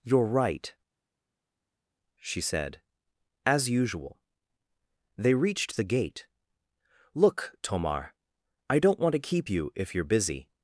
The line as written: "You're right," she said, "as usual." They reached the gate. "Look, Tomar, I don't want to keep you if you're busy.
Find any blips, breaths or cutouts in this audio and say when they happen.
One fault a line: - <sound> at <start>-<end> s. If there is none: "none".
none